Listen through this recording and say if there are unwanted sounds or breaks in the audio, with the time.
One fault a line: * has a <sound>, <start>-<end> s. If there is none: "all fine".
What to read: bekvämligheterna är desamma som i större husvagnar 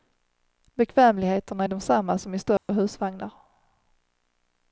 * has a dropout, 2.6-2.7 s